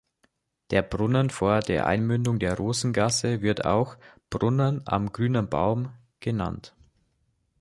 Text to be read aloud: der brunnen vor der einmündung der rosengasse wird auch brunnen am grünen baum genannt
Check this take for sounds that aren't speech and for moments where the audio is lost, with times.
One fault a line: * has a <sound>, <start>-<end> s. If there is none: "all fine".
all fine